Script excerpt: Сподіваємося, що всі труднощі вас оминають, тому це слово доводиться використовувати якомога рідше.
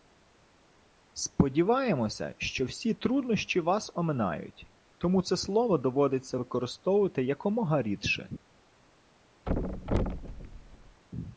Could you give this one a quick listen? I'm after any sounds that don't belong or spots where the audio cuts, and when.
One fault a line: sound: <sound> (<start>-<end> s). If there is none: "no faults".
sound: thud (9.5-11.0 s)